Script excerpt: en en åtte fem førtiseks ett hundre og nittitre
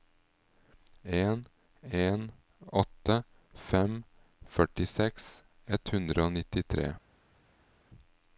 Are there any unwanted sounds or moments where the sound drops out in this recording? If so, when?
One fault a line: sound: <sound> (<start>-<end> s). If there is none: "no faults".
no faults